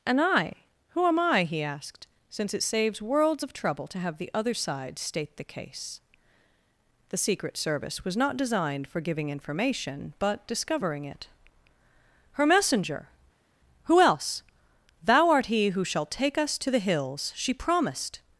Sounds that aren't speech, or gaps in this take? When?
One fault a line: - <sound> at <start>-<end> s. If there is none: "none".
none